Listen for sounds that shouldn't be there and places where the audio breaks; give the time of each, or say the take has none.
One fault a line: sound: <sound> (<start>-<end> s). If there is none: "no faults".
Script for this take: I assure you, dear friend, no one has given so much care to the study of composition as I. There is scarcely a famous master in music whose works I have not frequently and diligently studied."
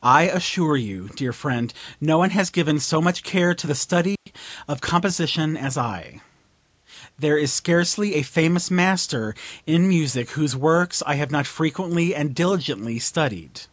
sound: dropout (4.2-4.3 s)